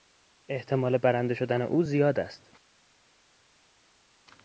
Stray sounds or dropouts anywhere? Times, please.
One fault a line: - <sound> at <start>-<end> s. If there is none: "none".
none